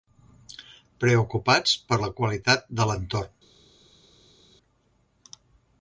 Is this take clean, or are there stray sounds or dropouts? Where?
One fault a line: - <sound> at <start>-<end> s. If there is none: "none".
none